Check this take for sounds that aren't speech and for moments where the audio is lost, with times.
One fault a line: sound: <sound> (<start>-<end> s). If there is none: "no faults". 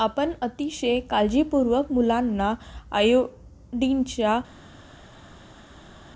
no faults